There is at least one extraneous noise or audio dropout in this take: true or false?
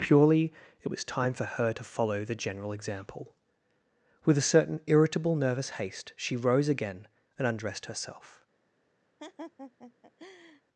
true